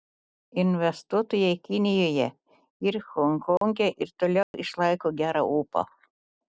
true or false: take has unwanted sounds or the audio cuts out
true